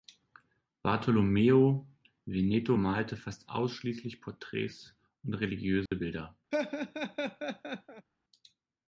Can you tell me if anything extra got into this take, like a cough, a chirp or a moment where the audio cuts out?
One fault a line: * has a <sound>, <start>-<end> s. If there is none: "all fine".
* has a dropout, 5.9-5.9 s
* has a laugh, 6.5-8.1 s